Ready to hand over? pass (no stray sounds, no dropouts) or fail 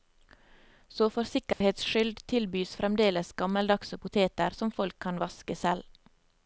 fail